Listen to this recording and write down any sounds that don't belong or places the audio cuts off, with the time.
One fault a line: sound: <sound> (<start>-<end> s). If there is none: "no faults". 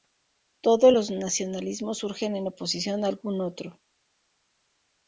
no faults